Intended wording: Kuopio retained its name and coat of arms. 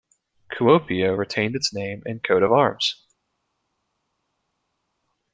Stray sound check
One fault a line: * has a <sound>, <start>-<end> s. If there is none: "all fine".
all fine